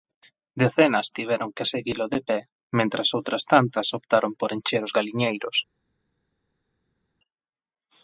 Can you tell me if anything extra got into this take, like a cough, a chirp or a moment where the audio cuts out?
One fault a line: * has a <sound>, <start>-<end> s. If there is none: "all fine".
all fine